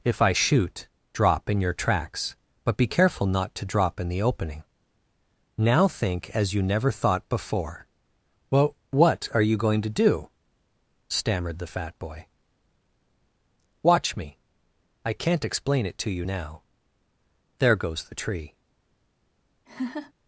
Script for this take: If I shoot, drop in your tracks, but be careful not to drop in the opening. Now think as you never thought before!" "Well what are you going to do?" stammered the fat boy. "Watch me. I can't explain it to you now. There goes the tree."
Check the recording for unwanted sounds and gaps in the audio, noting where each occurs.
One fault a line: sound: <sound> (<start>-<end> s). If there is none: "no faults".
sound: laugh (19.7-20.1 s)